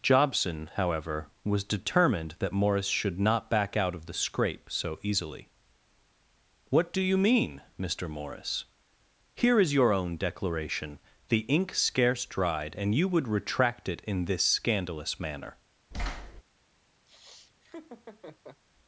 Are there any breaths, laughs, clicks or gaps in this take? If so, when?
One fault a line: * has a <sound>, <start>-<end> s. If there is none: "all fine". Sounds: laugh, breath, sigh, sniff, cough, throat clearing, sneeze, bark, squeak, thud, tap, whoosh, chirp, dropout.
* has a thud, 15.9-16.4 s
* has a laugh, 17.1-18.6 s